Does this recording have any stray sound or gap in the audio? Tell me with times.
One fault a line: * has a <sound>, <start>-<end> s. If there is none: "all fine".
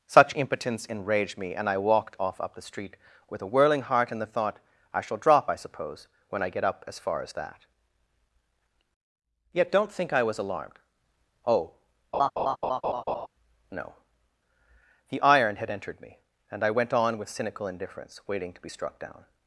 * has a laugh, 12.1-13.3 s